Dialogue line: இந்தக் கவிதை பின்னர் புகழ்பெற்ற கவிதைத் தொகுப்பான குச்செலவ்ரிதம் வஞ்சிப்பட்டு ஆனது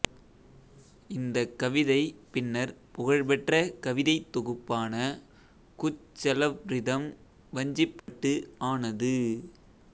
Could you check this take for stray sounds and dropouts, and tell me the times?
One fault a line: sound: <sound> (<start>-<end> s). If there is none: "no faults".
sound: dropout (8.0-8.1 s)